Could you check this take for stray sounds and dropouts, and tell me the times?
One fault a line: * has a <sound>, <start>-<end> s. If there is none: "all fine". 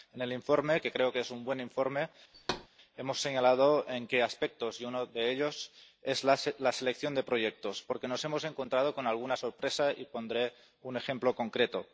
* has a thud, 2.3-2.7 s